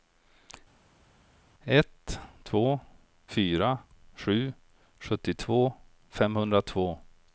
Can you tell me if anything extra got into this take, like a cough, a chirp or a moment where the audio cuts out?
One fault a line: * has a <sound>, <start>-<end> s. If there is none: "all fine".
all fine